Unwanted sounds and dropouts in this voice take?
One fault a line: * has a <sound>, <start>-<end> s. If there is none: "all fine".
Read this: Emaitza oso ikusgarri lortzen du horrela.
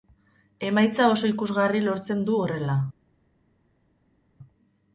all fine